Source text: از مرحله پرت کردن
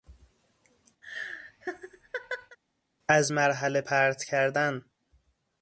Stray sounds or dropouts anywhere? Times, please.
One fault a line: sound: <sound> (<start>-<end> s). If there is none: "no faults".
sound: laugh (1.0-2.6 s)